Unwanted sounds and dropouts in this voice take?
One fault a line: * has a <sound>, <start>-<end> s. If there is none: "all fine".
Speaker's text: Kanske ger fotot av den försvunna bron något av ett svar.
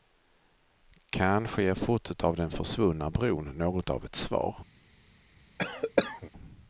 * has a cough, 5.6-6.3 s